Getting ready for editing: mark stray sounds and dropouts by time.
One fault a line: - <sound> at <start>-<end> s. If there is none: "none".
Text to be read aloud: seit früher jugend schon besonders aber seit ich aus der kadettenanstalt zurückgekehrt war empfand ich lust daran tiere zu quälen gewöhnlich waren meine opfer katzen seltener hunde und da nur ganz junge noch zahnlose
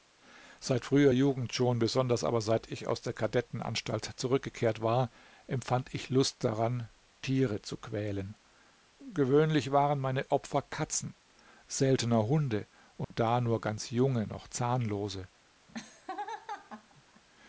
- dropout at 13.0-13.1 s
- laugh at 15.7-17.2 s